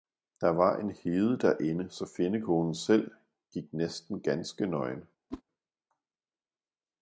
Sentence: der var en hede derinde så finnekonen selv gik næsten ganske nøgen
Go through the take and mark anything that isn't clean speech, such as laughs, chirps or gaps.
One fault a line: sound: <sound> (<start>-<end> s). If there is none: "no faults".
sound: whoosh (5.3-5.4 s)